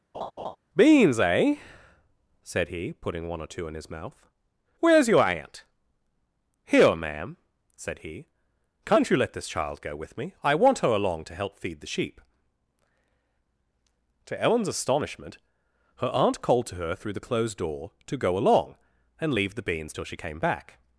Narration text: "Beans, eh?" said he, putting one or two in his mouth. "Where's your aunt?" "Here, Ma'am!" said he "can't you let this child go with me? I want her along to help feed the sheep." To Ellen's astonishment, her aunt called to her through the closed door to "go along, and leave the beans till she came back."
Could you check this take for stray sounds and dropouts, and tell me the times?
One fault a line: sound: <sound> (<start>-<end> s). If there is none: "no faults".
sound: laugh (0.1-0.6 s)